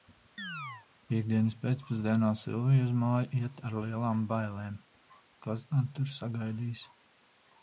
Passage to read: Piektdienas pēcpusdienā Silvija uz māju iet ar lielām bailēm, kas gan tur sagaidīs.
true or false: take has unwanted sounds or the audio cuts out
true